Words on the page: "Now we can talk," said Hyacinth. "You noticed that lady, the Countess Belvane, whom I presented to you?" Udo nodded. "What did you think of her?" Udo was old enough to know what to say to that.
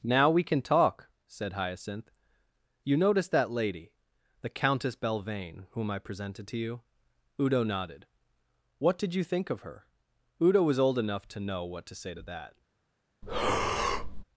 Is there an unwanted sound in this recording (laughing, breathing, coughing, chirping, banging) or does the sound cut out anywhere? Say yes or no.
yes